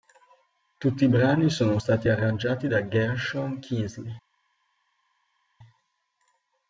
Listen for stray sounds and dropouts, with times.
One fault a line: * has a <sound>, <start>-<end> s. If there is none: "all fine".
all fine